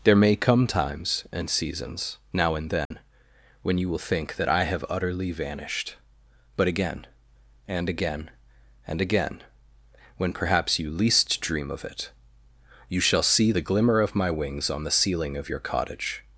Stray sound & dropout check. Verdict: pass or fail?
fail